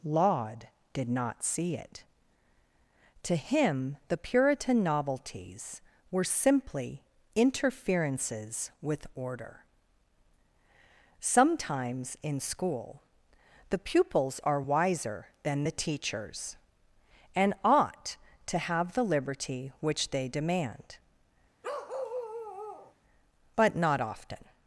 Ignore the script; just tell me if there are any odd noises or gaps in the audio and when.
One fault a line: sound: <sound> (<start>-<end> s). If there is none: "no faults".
sound: bark (21.6-22.9 s)